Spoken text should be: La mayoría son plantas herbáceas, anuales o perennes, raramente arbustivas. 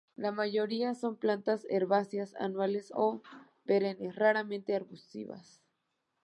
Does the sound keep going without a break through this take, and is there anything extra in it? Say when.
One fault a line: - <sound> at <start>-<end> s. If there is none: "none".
none